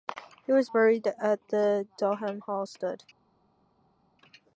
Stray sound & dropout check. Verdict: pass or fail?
pass